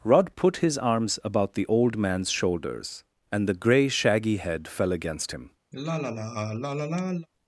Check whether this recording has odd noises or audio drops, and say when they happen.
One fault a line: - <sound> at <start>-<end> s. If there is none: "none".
- sigh at 5.7-7.3 s